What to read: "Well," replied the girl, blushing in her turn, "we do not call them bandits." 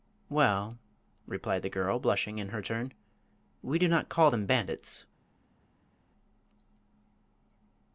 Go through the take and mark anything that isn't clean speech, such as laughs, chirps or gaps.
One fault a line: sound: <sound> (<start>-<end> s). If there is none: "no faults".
no faults